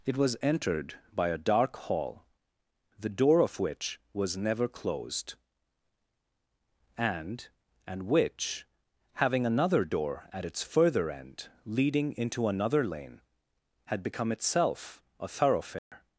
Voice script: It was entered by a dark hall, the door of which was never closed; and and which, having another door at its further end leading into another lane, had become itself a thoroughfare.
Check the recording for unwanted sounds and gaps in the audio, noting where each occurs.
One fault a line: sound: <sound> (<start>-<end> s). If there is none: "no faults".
sound: dropout (15.8-15.9 s)